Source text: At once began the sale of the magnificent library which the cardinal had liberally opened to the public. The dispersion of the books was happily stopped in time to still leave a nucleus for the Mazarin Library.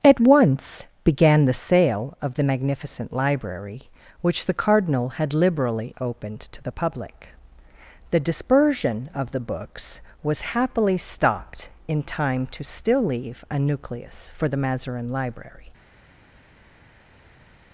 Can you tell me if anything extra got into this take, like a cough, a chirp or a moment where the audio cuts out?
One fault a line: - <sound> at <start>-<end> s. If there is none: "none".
none